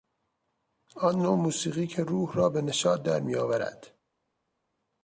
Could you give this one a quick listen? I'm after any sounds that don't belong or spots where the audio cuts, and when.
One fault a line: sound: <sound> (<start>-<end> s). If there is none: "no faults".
no faults